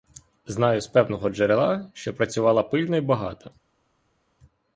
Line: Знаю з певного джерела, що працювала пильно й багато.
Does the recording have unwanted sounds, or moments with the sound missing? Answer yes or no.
no